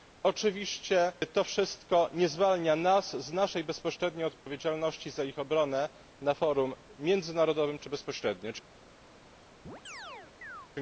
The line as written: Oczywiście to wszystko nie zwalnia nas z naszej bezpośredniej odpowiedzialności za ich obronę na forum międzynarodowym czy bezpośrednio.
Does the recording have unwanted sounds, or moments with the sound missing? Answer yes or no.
yes